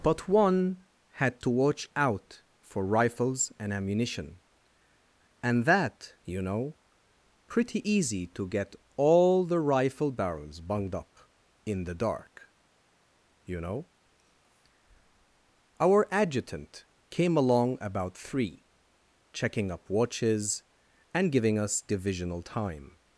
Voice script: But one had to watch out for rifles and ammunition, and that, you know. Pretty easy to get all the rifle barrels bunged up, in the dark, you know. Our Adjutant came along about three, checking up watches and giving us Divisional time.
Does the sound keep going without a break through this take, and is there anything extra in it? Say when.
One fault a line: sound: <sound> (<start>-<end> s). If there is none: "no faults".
no faults